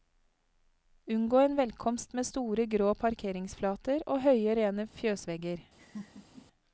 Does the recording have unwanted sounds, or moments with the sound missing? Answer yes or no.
yes